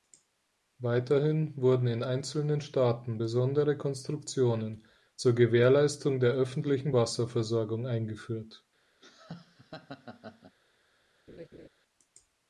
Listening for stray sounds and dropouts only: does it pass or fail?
fail